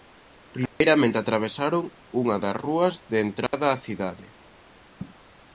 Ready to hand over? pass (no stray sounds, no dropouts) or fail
fail